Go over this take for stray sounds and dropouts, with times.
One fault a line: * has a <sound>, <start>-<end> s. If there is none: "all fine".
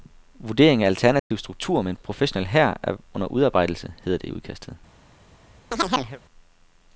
* has a dropout, 1.2-1.3 s
* has a chirp, 5.7-6.2 s